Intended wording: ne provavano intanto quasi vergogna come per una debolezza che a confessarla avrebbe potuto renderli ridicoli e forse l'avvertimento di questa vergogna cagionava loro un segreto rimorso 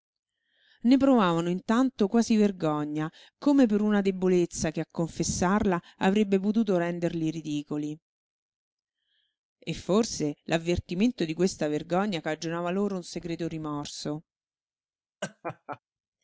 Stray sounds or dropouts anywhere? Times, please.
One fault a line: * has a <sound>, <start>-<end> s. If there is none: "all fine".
* has a laugh, 15.2-15.8 s